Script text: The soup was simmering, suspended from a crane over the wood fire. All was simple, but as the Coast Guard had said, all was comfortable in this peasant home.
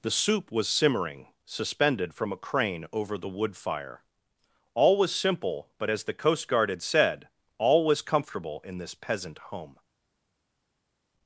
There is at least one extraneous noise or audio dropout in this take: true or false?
false